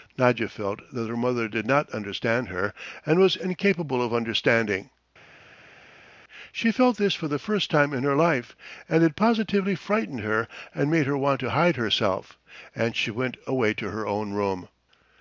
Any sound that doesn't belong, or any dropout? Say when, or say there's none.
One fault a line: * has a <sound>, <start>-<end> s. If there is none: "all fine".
all fine